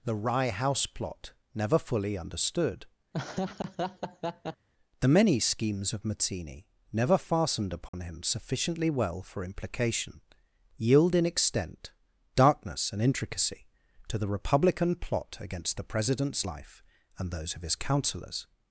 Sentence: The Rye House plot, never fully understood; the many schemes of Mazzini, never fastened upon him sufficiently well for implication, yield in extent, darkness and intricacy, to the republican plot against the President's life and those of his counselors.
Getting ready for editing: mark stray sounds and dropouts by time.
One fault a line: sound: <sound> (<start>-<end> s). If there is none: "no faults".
sound: laugh (3.1-4.7 s)
sound: dropout (7.9-7.9 s)